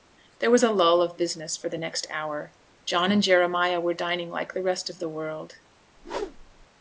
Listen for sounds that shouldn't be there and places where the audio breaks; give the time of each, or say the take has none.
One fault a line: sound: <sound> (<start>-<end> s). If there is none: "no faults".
sound: whoosh (6.0-6.7 s)